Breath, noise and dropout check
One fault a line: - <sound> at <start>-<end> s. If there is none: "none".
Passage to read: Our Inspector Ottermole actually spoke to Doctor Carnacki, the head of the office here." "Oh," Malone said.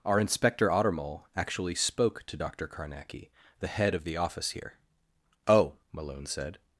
none